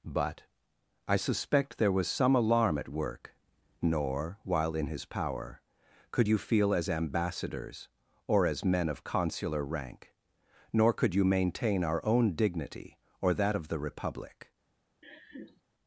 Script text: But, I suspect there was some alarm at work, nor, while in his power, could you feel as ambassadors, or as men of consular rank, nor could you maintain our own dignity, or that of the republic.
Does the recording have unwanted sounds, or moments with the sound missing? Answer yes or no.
yes